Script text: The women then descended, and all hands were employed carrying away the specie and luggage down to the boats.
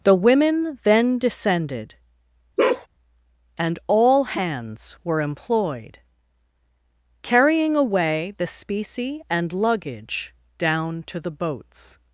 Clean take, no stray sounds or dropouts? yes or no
no